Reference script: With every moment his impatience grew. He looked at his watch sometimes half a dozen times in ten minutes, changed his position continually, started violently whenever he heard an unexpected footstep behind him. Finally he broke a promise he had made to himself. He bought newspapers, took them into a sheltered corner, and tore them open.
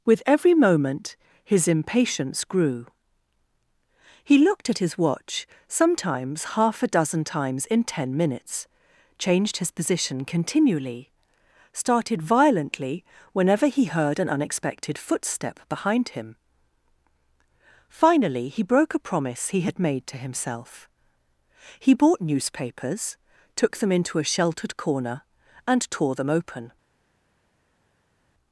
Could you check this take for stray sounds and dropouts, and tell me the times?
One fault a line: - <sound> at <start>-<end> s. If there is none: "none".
none